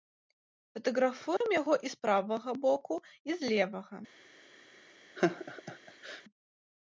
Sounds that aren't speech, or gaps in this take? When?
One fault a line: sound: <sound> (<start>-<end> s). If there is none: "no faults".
sound: dropout (1.4-1.4 s)
sound: laugh (5.2-6.2 s)